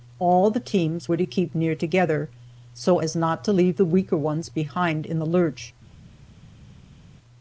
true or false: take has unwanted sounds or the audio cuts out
false